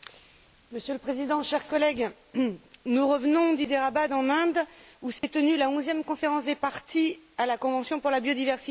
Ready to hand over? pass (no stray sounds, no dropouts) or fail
fail